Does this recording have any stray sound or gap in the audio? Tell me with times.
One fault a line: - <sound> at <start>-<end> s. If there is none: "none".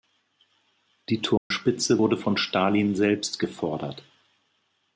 - dropout at 1.4-1.5 s